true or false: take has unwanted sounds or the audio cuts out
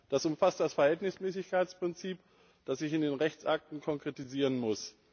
false